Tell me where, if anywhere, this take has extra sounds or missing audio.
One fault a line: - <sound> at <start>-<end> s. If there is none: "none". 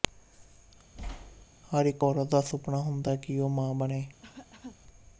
- thud at 0.9-1.5 s
- cough at 4.2-4.8 s